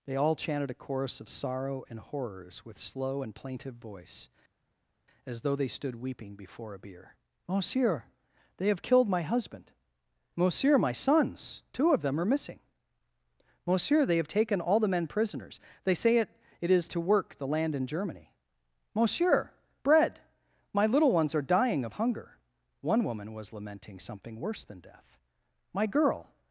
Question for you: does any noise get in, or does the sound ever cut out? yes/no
no